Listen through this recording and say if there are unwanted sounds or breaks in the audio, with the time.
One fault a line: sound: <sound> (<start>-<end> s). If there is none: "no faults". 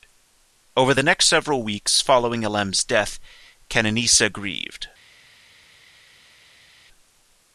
no faults